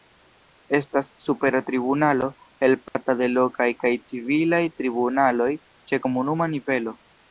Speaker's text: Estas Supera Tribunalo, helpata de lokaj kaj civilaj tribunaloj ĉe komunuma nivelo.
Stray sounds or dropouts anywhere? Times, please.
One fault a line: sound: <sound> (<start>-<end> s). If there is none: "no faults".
sound: dropout (2.9-2.9 s)